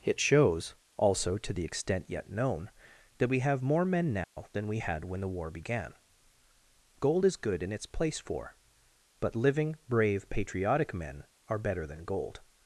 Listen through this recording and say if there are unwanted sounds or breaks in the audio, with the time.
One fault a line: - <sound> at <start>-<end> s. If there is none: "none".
- dropout at 4.2-4.4 s